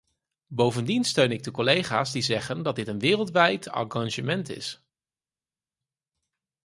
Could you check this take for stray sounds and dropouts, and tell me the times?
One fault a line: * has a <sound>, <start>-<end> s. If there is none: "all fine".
all fine